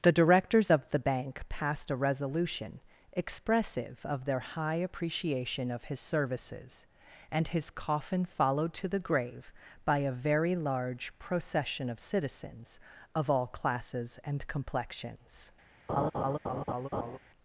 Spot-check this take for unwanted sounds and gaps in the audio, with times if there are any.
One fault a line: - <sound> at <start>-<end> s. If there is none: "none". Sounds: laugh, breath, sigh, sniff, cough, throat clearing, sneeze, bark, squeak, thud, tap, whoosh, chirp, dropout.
- laugh at 15.9-17.2 s